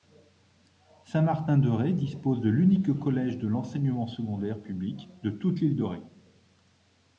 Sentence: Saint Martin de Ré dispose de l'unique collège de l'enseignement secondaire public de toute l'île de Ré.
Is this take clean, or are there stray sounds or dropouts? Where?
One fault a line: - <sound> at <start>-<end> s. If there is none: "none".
none